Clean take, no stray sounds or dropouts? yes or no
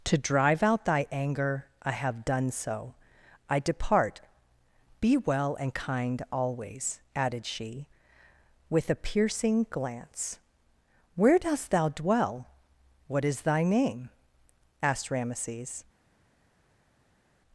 yes